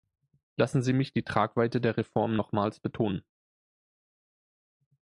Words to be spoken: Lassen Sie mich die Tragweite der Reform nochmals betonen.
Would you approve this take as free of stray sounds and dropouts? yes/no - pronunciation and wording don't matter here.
yes